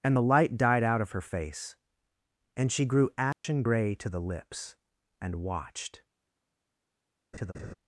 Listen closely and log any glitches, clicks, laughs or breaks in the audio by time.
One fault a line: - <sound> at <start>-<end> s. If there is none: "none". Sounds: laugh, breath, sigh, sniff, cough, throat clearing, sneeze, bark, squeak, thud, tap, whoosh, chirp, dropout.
- dropout at 3.3-3.4 s
- laugh at 7.3-7.7 s